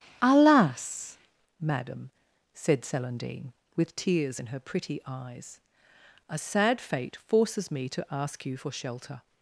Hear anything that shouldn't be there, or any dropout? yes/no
no